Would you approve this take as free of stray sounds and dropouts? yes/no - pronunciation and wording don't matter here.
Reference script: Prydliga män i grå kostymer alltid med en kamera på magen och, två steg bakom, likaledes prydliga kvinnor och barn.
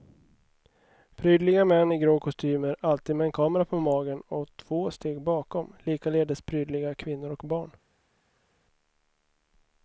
yes